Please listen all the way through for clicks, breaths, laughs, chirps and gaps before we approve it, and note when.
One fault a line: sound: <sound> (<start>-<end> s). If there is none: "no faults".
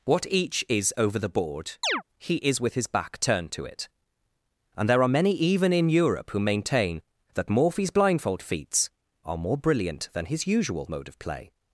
sound: chirp (1.8-2.0 s)